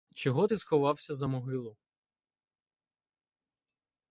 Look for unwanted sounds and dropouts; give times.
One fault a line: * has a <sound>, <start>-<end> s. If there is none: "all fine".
all fine